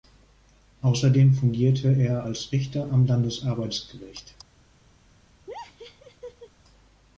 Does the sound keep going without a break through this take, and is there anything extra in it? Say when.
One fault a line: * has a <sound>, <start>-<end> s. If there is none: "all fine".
* has a laugh, 5.5-6.5 s